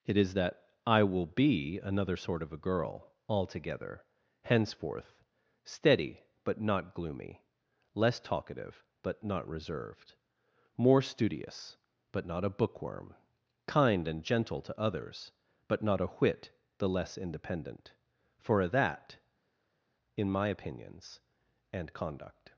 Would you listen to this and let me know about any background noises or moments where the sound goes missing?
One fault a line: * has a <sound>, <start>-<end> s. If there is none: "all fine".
all fine